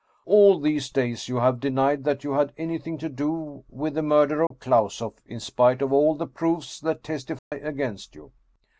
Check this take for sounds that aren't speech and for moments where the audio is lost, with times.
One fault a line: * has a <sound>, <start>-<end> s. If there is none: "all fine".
* has a dropout, 4.5-4.5 s
* has a dropout, 7.4-7.5 s